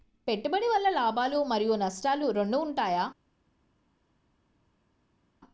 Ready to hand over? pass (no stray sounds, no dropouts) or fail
pass